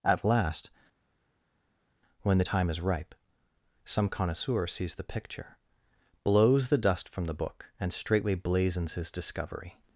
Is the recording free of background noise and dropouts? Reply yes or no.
yes